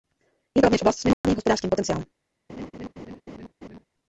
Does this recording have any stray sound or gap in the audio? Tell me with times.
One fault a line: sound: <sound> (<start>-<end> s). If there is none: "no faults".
sound: dropout (1.1-1.2 s)
sound: laugh (2.5-3.9 s)